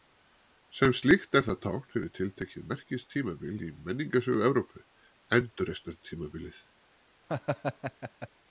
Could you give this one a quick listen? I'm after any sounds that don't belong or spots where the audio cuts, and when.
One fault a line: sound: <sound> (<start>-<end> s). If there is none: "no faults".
sound: laugh (7.3-8.3 s)